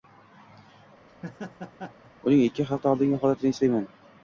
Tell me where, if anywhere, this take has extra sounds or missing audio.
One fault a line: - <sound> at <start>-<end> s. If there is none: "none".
- laugh at 1.1-2.1 s